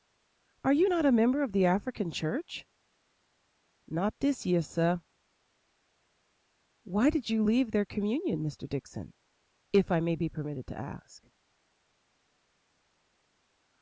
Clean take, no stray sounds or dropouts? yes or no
yes